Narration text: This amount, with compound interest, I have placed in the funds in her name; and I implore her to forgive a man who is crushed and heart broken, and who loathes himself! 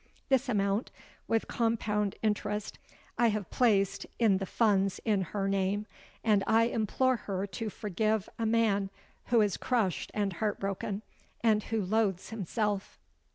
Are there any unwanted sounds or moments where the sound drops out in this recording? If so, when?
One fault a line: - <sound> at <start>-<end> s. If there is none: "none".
none